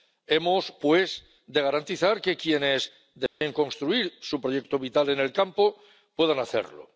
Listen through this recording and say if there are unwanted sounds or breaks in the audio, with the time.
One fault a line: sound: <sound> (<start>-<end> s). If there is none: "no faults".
sound: dropout (3.3-3.4 s)